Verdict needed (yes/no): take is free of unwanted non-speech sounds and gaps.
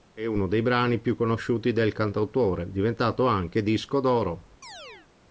no